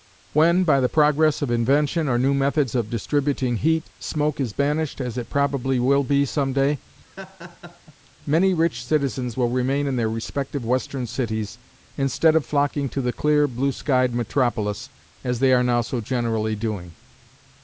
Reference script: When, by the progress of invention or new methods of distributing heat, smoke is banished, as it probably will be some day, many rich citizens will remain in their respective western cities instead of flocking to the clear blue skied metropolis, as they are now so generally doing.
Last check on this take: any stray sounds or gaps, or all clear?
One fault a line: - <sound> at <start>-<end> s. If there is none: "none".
- laugh at 7.0-8.0 s